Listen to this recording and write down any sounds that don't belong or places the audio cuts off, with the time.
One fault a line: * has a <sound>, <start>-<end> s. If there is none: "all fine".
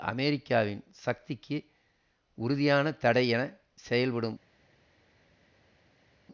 all fine